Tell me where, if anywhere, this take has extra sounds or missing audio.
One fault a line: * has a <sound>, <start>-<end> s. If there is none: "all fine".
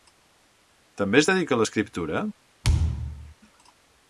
* has a thud, 2.6-3.3 s